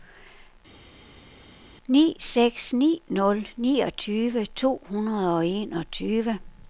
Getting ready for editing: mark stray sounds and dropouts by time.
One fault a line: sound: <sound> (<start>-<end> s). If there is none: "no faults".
no faults